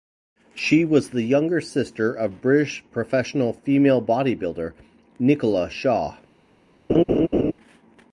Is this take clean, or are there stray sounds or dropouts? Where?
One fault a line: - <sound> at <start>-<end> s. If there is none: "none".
- laugh at 6.9-7.5 s